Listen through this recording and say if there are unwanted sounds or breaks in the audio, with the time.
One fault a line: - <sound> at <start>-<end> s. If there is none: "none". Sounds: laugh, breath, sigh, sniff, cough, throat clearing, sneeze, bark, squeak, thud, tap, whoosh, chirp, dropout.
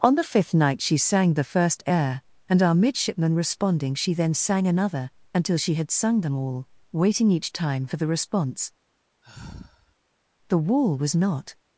- sigh at 9.2-10.0 s